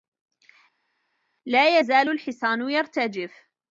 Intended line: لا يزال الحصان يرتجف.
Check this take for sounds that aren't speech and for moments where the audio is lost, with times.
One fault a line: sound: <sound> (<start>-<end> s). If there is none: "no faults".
no faults